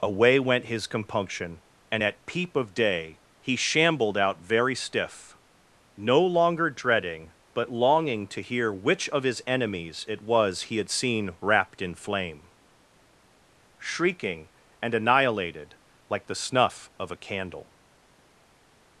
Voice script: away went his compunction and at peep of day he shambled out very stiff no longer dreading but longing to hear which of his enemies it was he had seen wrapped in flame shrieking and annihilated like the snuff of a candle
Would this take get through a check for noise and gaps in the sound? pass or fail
pass